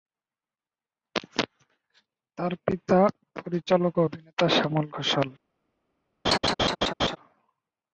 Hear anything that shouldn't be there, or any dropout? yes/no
yes